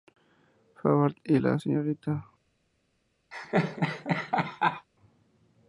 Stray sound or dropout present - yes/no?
yes